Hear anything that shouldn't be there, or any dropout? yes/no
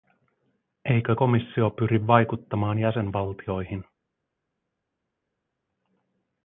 no